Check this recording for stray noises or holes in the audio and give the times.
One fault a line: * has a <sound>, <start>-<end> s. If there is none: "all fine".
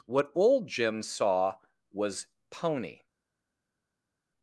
all fine